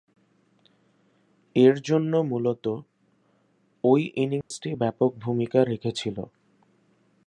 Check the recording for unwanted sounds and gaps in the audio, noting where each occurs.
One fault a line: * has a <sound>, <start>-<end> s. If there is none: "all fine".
* has a dropout, 4.4-4.5 s